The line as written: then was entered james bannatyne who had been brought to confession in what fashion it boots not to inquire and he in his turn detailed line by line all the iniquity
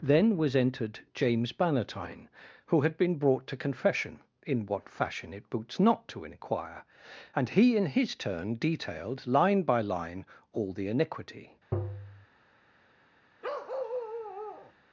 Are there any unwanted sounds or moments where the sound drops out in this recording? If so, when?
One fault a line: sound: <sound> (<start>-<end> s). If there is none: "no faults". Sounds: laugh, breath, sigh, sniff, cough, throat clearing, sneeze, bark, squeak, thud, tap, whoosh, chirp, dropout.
sound: tap (11.7-12.3 s)
sound: bark (13.4-14.7 s)